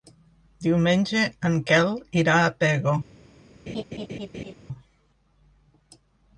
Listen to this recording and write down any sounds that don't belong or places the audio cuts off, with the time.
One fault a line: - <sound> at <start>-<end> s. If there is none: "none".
- laugh at 3.7-4.5 s